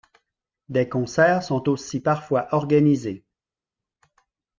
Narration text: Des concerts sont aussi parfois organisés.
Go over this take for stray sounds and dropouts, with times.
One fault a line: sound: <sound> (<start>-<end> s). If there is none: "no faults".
no faults